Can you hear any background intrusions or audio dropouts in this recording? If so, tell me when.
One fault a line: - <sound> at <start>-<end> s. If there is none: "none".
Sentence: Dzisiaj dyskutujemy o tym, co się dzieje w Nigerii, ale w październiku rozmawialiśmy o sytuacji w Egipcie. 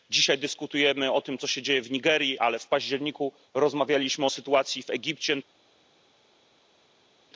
none